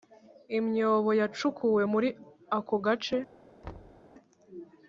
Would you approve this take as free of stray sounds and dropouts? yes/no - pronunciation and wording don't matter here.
no